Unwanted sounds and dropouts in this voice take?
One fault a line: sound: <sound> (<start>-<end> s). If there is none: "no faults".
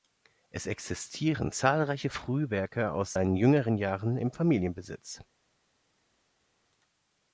no faults